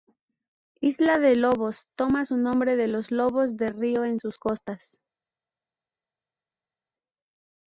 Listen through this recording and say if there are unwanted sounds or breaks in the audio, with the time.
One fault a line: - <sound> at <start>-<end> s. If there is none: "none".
none